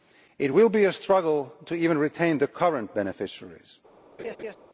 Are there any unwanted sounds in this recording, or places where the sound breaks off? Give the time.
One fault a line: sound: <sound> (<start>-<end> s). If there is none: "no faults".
sound: laugh (4.2-4.6 s)